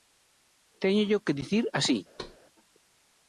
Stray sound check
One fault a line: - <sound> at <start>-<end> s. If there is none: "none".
- thud at 2.2-2.4 s